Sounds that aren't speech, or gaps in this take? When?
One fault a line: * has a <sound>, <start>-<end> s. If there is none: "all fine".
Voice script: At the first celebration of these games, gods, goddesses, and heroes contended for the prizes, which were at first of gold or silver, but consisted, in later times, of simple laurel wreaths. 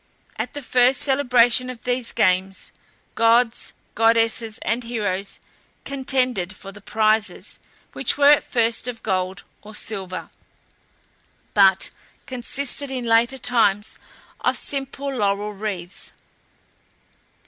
all fine